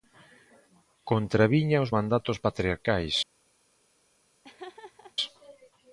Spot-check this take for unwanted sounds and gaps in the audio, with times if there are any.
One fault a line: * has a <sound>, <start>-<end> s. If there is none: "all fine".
* has a laugh, 4.4-5.2 s